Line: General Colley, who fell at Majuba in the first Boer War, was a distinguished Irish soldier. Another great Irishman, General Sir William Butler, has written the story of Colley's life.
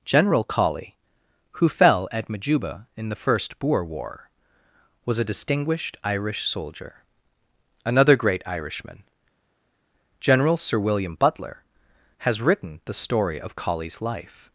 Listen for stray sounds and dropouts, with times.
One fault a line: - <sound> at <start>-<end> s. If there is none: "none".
none